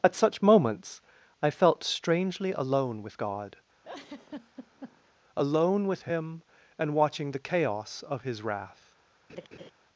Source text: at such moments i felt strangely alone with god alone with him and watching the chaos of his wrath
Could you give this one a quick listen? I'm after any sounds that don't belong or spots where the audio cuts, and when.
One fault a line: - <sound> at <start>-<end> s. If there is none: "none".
- laugh at 3.8-5.1 s
- laugh at 9.3-9.7 s